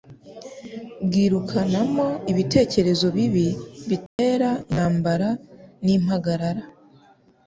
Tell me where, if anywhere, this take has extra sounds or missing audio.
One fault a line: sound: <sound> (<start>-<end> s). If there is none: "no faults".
sound: dropout (4.1-4.2 s)